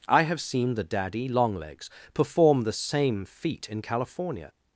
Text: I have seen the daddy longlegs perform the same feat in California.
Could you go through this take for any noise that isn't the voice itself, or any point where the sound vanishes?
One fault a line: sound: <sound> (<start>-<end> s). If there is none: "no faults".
no faults